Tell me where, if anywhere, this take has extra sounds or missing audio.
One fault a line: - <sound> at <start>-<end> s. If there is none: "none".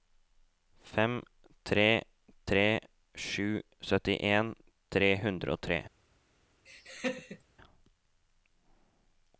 - laugh at 6.7-7.4 s